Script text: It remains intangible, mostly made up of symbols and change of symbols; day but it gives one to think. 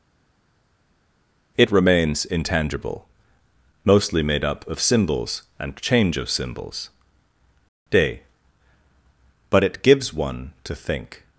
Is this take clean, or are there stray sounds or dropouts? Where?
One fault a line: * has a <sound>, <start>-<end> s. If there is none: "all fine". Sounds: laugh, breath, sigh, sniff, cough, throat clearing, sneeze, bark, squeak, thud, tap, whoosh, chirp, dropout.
all fine